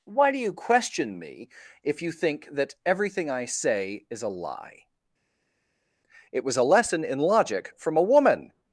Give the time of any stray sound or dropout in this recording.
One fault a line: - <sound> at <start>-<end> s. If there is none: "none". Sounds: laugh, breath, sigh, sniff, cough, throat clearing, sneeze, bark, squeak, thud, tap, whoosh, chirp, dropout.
none